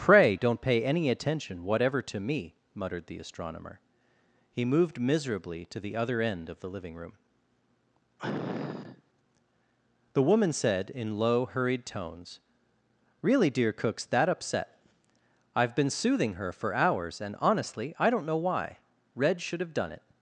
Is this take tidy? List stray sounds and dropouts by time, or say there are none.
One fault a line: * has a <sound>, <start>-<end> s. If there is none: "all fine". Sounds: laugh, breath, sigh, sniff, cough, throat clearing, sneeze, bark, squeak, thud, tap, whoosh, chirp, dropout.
* has a sniff, 8.2-9.0 s